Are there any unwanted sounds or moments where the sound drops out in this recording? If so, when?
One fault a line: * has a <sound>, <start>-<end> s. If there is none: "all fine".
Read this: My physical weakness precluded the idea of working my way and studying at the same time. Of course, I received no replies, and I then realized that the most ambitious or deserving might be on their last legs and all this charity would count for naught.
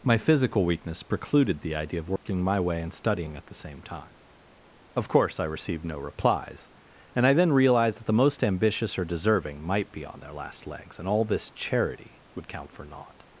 * has a dropout, 2.2-2.3 s